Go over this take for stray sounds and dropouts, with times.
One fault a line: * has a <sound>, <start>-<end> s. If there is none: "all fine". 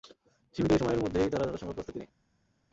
all fine